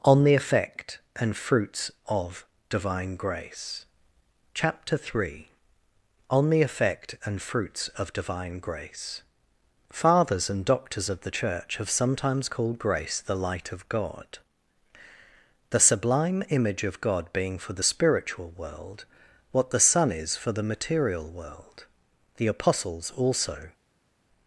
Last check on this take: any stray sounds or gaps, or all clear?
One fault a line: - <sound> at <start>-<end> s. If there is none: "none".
none